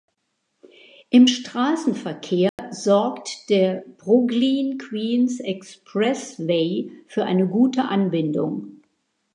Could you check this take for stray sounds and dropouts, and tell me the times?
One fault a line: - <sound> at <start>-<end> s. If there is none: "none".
- dropout at 2.5-2.6 s